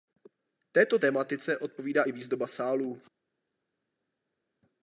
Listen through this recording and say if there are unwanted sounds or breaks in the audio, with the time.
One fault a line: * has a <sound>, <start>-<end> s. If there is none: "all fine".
all fine